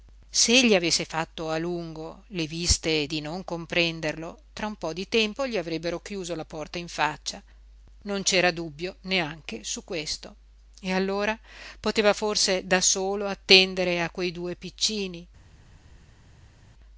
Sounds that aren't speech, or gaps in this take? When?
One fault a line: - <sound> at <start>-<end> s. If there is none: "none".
none